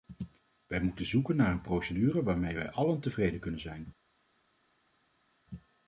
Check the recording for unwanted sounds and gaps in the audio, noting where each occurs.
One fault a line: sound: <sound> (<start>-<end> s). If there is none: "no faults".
no faults